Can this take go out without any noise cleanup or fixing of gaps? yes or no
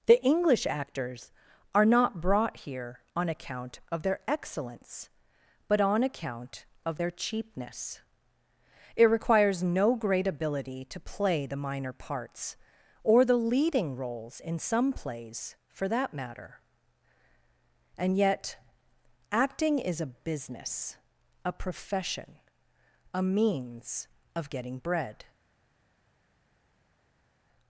yes